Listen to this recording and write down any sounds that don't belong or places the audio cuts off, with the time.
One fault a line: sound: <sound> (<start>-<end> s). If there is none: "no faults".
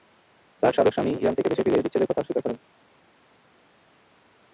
no faults